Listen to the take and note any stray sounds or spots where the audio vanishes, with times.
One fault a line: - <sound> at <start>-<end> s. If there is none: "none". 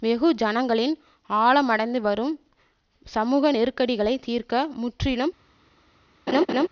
- laugh at 6.3-6.7 s